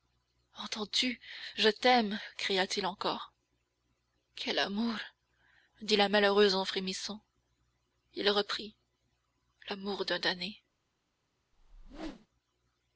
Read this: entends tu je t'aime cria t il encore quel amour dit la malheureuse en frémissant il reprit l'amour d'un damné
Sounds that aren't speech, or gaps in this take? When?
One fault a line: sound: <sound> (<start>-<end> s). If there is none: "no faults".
sound: whoosh (11.5-12.3 s)